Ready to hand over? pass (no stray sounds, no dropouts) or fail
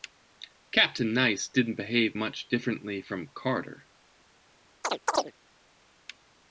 fail